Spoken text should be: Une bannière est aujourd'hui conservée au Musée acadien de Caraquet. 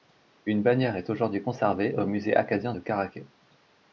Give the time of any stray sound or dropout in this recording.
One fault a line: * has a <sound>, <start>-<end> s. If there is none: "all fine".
all fine